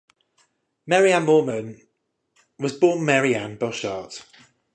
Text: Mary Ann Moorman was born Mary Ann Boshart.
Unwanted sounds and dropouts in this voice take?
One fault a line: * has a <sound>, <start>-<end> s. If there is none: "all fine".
all fine